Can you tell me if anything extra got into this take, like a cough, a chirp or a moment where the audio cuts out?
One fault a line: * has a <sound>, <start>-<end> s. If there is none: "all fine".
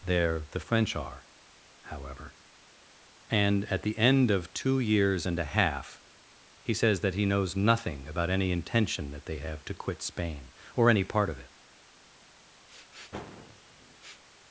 * has a sniff, 12.7-14.2 s